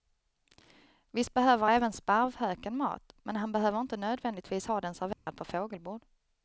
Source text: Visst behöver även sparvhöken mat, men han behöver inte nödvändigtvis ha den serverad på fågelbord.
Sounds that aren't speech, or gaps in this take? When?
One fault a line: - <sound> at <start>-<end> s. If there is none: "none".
- dropout at 5.1-5.3 s